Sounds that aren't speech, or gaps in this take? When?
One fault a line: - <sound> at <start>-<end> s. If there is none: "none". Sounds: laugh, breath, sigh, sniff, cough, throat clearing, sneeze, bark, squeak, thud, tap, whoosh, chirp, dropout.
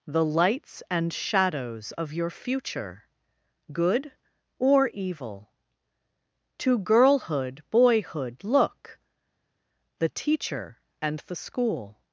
none